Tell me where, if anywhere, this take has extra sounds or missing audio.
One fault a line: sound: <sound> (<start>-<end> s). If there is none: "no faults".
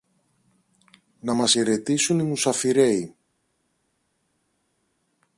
no faults